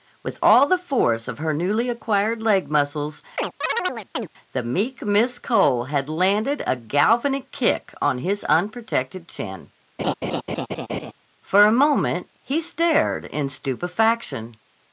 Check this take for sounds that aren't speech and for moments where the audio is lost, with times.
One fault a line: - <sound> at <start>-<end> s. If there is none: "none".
- chirp at 3.4-4.3 s
- laugh at 10.0-11.1 s